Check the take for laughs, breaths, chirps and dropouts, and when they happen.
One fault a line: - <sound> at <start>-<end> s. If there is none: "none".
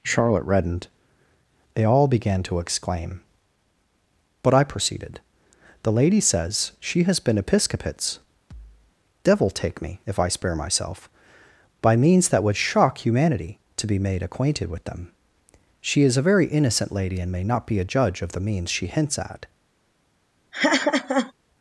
- thud at 8.5-8.9 s
- laugh at 20.5-21.3 s